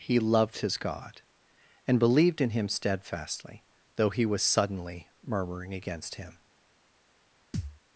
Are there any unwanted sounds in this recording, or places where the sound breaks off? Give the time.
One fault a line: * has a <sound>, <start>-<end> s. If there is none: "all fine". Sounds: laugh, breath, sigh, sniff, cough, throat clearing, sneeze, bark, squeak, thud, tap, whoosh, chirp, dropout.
* has a thud, 7.5-7.8 s